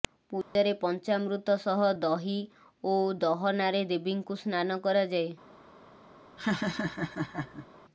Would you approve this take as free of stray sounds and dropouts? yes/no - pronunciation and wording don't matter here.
no